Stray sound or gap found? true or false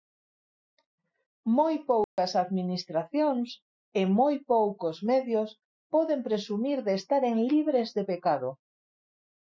true